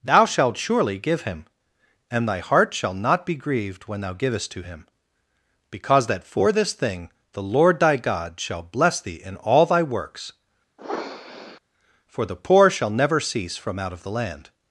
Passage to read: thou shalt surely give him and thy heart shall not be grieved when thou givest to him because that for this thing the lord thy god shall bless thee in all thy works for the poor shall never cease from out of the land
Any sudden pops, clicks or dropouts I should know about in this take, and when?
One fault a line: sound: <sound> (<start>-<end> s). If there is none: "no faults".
sound: sniff (10.8-11.6 s)